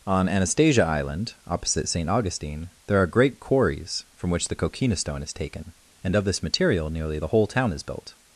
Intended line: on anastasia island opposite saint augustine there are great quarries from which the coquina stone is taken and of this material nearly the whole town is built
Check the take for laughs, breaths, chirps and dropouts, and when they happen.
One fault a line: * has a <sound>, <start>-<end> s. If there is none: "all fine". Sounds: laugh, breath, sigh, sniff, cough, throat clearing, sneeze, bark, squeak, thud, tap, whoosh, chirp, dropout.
all fine